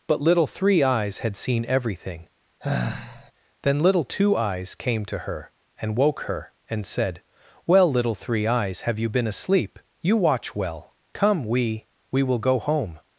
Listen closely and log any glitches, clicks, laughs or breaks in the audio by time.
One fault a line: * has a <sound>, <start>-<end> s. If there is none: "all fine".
* has a sigh, 2.6-3.3 s